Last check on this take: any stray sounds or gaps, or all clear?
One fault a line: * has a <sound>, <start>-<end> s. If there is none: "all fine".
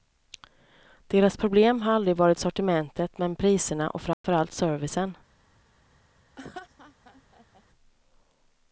* has a dropout, 4.1-4.2 s
* has a laugh, 6.4-7.6 s